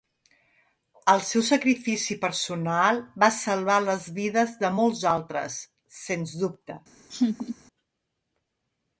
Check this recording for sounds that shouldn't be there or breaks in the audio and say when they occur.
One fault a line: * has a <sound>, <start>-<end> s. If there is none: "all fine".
* has a laugh, 7.1-7.6 s